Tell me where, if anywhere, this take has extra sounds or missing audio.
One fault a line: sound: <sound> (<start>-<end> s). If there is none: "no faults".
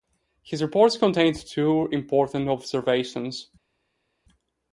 no faults